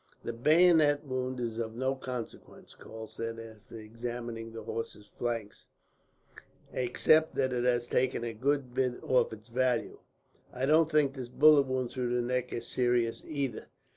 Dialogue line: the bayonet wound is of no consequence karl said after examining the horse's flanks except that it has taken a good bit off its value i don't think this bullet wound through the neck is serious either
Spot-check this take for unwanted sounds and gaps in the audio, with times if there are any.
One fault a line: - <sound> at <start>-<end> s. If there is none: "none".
none